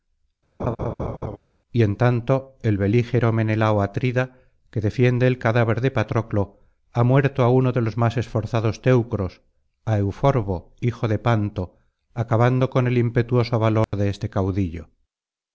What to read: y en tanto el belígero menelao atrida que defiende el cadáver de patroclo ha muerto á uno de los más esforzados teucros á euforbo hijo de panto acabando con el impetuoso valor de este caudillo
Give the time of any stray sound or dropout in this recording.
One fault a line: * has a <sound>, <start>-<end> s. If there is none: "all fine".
* has a laugh, 0.6-1.4 s
* has a dropout, 13.8-13.9 s